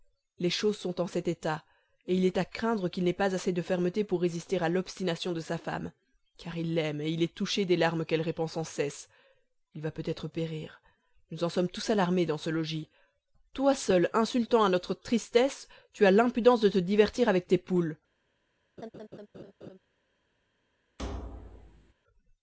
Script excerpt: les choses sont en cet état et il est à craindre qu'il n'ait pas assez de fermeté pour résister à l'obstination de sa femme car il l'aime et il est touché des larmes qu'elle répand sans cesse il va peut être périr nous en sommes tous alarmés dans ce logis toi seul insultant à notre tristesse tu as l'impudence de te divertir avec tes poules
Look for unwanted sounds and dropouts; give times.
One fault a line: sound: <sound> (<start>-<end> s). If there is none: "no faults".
sound: laugh (18.8-19.8 s)
sound: thud (21.0-21.9 s)